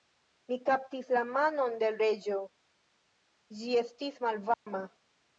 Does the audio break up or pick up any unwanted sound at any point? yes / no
yes